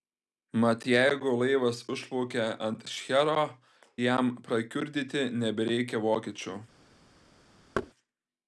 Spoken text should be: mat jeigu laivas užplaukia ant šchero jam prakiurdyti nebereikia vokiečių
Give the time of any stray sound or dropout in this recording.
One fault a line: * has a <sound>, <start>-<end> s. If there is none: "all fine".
* has a thud, 7.7-7.9 s